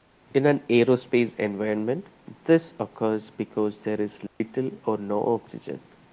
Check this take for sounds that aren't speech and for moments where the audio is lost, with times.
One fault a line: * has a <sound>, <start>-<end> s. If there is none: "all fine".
* has a dropout, 4.3-4.4 s